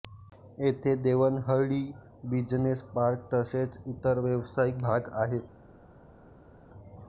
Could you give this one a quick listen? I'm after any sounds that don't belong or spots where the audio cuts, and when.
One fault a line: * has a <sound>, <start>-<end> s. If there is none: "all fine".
all fine